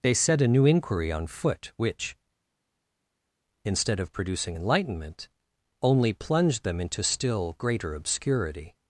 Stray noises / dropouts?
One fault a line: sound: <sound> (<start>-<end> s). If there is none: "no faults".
no faults